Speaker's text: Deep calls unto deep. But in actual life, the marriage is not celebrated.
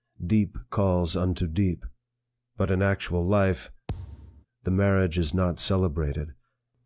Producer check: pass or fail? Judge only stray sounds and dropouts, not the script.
fail